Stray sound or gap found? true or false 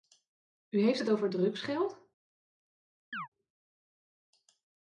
true